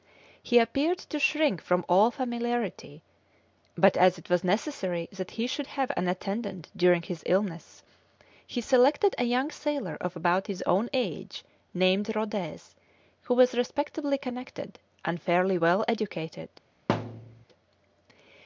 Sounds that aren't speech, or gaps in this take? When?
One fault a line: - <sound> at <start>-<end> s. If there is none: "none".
- thud at 16.9-17.5 s